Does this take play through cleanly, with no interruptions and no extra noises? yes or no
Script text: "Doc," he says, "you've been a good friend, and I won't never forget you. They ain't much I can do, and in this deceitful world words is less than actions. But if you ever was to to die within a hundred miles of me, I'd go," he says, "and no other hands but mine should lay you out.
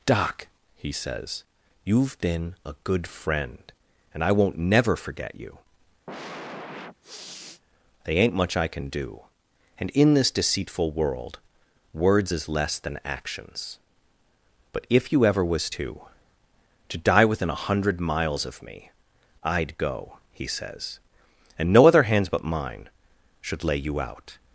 no